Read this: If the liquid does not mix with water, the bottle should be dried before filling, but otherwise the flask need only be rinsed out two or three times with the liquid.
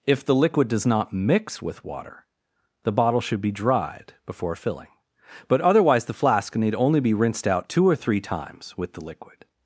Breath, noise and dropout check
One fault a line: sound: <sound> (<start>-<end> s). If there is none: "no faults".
no faults